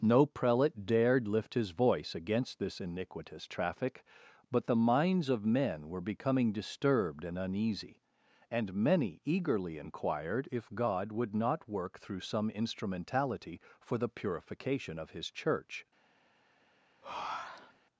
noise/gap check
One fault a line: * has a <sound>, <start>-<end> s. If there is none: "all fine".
* has a breath, 17.0-17.8 s